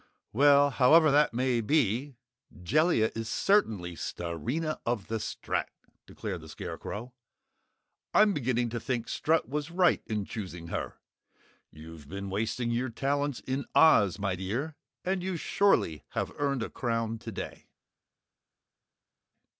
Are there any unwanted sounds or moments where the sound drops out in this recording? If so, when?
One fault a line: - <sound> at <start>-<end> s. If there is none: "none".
none